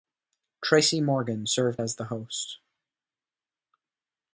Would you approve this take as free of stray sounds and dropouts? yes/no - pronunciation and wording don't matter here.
yes